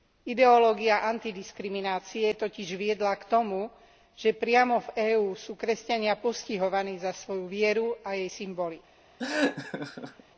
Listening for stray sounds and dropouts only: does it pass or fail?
fail